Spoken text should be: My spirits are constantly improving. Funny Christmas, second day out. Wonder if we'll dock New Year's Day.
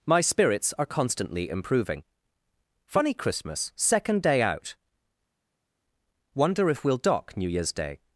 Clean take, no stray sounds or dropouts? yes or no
yes